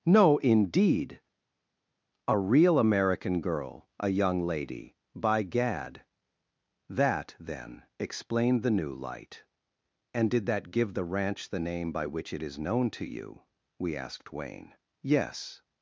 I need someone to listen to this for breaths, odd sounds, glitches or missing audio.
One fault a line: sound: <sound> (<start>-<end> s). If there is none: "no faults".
no faults